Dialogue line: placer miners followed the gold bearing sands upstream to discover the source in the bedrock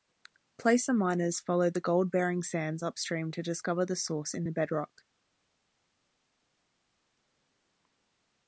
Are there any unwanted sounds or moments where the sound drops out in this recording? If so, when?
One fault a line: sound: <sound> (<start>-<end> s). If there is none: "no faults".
no faults